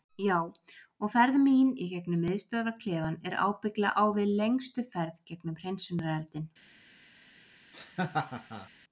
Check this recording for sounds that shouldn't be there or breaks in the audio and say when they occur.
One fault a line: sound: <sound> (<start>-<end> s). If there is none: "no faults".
sound: laugh (7.7-8.7 s)